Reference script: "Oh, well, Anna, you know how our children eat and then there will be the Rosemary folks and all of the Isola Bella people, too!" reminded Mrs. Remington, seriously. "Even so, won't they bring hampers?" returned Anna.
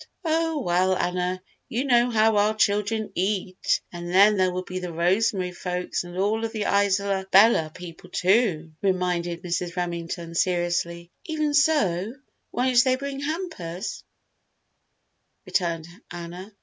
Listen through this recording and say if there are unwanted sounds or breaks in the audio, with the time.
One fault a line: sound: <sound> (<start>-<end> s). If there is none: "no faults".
no faults